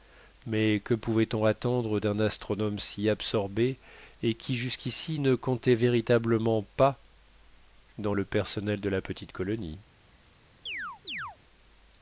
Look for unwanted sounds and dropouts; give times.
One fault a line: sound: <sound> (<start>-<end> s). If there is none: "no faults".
sound: chirp (10.7-11.4 s)